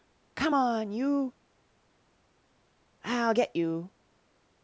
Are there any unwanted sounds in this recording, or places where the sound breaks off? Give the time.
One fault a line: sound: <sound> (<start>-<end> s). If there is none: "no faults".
no faults